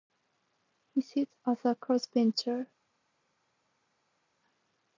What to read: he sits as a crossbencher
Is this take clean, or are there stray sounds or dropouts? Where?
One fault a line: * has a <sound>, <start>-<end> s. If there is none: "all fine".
all fine